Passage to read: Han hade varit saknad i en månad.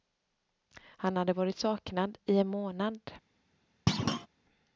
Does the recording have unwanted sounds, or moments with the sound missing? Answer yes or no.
yes